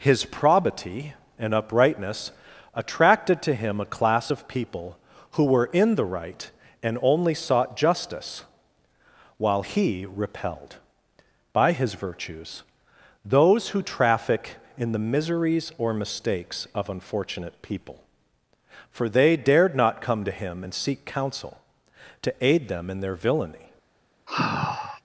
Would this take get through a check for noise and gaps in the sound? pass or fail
fail